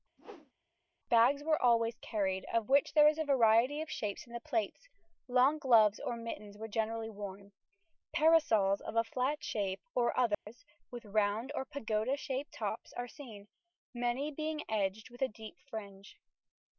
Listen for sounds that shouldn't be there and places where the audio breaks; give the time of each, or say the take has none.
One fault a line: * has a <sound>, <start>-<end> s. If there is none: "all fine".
* has a whoosh, 0.2-0.5 s
* has a dropout, 10.3-10.5 s